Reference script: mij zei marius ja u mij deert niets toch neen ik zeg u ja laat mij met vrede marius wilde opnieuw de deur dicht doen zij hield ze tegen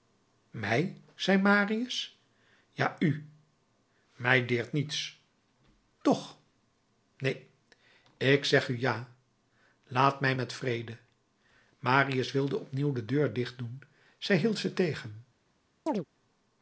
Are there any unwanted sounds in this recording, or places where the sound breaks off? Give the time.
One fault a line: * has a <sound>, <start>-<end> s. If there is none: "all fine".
* has a chirp, 15.9-16.1 s